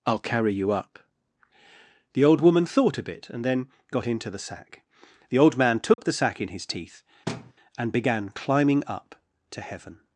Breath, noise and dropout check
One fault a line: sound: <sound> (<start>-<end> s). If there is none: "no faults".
sound: dropout (5.9-6.0 s)
sound: thud (7.3-7.5 s)